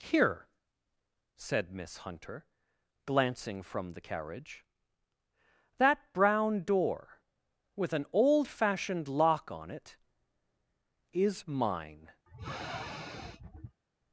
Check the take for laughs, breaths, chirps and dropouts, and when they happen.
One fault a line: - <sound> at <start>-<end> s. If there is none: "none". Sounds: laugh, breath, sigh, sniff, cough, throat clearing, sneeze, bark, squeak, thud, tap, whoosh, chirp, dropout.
- sniff at 12.3-13.8 s